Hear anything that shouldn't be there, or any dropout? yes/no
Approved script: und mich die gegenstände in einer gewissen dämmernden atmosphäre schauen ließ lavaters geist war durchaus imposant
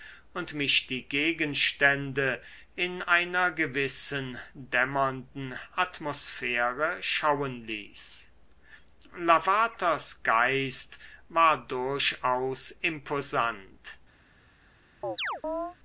yes